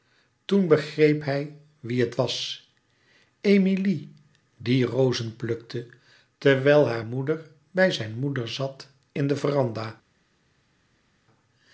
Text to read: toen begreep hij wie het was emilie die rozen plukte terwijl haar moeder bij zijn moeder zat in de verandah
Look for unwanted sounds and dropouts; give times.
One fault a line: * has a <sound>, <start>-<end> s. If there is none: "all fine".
all fine